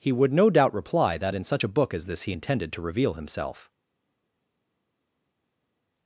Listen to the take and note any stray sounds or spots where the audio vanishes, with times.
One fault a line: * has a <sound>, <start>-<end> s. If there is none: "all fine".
all fine